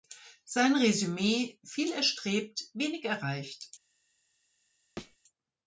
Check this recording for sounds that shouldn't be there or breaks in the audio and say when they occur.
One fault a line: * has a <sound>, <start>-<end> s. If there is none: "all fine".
* has a thud, 5.0-5.2 s